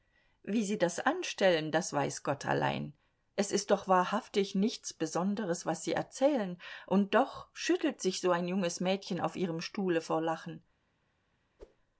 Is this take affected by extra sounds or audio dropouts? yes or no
yes